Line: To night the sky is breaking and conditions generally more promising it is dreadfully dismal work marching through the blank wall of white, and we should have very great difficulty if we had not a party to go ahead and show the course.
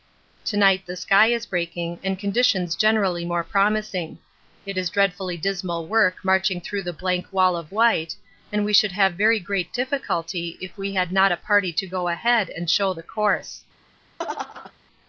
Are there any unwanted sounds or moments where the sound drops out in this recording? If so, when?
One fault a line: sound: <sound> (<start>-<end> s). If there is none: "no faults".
sound: laugh (14.2-14.7 s)